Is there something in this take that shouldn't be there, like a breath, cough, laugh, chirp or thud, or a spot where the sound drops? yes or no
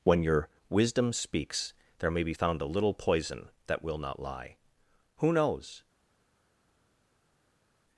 no